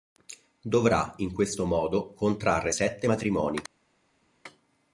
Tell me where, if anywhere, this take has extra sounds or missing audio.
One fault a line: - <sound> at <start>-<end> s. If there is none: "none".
none